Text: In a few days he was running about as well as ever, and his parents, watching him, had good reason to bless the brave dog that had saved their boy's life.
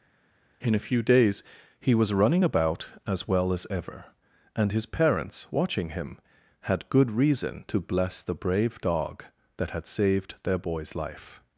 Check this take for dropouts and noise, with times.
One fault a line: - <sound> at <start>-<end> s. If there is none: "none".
none